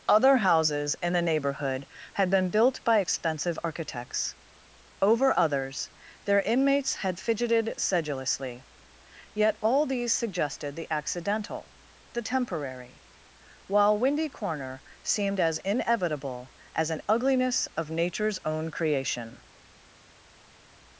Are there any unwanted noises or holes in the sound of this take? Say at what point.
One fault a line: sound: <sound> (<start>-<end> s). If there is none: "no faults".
no faults